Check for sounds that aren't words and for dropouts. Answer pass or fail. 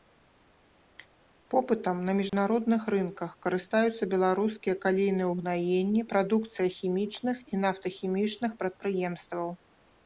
fail